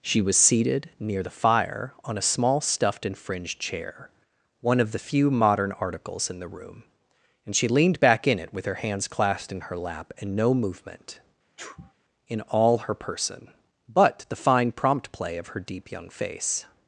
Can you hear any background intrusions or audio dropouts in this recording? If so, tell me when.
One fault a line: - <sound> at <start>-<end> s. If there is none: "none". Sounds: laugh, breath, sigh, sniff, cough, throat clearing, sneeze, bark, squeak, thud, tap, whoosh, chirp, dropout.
- sneeze at 11.6-11.9 s